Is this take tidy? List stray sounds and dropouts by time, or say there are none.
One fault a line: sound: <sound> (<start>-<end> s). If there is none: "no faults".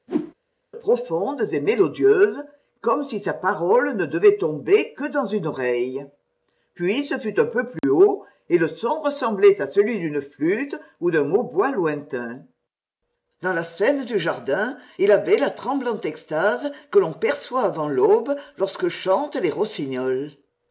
sound: whoosh (0.1-0.3 s)
sound: dropout (7.8-7.8 s)